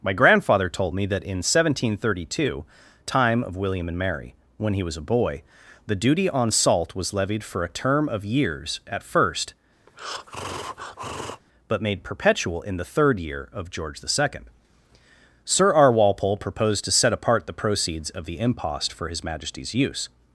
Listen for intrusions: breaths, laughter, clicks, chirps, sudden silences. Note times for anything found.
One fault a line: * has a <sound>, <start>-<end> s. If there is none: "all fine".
* has a breath, 9.9-11.4 s